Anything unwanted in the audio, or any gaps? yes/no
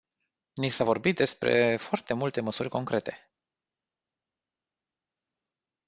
no